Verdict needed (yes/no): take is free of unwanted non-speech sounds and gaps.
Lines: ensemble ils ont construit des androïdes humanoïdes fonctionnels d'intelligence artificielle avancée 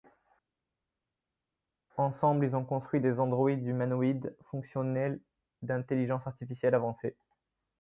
yes